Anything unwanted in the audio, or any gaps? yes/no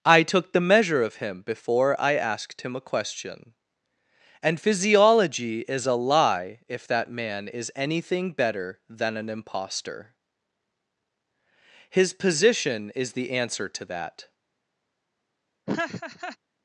yes